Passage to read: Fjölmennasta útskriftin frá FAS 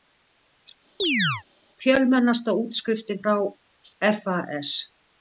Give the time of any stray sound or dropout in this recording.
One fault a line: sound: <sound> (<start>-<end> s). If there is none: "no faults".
sound: chirp (1.0-1.4 s)